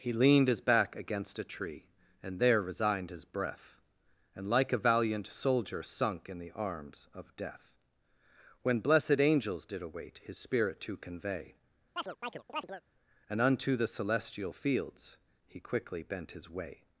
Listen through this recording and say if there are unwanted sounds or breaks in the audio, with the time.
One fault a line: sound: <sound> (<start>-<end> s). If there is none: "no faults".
sound: chirp (12.0-12.8 s)